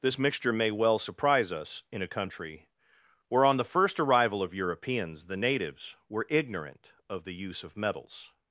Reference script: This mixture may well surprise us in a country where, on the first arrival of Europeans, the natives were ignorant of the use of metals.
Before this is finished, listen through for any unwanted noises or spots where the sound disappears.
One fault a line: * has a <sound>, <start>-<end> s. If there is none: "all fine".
all fine